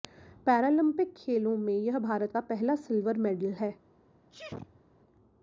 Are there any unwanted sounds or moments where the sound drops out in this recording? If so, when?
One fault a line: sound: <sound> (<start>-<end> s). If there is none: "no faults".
sound: sneeze (4.3-4.8 s)